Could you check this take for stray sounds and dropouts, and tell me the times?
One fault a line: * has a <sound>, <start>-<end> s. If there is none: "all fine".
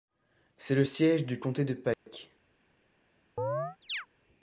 * has a dropout, 1.9-2.1 s
* has a chirp, 3.4-4.1 s